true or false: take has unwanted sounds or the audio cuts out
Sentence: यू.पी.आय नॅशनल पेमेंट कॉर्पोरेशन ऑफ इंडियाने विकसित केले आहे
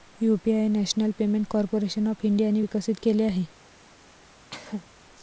true